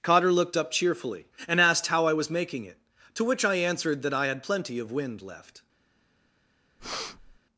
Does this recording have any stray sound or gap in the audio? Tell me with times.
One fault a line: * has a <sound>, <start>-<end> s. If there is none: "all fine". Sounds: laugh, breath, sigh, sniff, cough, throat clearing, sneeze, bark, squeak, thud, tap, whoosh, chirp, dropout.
* has a breath, 6.8-7.4 s